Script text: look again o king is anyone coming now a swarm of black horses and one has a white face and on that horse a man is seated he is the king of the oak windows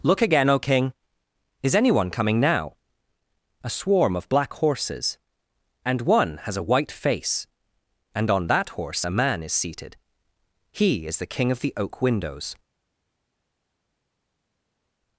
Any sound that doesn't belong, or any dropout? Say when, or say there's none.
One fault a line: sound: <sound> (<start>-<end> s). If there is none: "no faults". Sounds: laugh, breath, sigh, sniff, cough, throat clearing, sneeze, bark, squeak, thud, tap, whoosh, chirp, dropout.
no faults